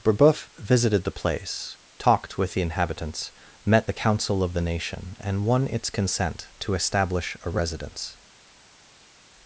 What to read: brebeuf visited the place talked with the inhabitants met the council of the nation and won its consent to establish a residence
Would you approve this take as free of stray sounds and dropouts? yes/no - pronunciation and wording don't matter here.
yes